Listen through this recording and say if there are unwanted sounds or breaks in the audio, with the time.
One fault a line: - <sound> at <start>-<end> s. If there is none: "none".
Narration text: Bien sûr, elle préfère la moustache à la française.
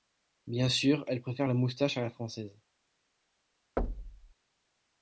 - thud at 3.8-4.3 s